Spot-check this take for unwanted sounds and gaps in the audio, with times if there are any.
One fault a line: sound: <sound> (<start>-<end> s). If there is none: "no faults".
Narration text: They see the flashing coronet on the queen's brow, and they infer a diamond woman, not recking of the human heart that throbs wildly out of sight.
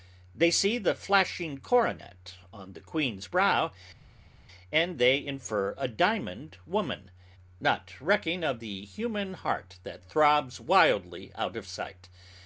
no faults